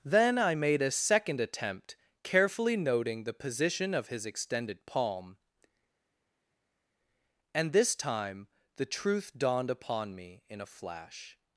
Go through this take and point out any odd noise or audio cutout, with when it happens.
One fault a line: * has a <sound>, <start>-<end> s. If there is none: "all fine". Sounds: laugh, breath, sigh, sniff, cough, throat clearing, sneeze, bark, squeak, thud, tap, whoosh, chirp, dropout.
all fine